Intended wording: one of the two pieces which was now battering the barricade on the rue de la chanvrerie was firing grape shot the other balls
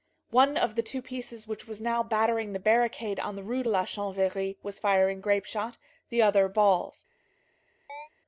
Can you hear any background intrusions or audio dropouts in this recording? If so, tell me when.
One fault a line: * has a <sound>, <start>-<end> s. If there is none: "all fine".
* has a chirp, 7.9-8.1 s